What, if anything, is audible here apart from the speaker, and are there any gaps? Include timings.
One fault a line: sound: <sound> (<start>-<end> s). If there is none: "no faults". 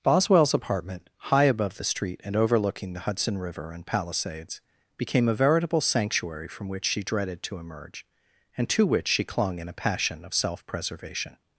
no faults